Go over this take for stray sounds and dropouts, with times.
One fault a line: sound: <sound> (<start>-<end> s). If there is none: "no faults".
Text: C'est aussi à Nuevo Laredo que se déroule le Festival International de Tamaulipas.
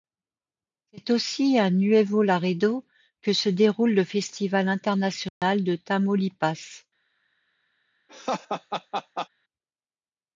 sound: dropout (5.3-5.4 s)
sound: laugh (8.1-9.3 s)